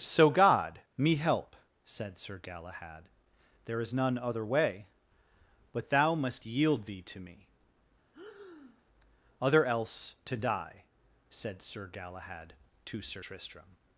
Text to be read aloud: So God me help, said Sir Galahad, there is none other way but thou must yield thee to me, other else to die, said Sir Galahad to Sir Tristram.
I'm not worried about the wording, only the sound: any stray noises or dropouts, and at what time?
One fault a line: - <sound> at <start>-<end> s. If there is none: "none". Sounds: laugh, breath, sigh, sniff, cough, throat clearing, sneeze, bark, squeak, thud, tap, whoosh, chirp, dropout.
- breath at 8.1-8.8 s